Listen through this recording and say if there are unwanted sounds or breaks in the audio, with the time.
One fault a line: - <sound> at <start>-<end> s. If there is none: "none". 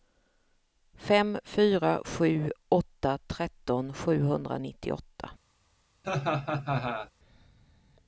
- laugh at 6.0-7.1 s